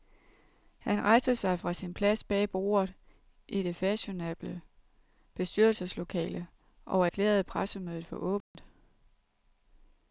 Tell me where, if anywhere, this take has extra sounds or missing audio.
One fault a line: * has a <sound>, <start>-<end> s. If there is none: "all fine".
* has a dropout, 8.4-8.5 s